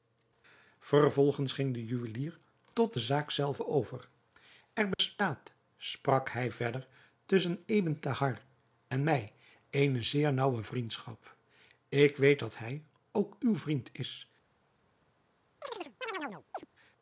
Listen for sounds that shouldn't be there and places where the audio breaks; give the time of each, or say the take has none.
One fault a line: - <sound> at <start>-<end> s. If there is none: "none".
- dropout at 4.9-5.0 s
- chirp at 15.6-16.7 s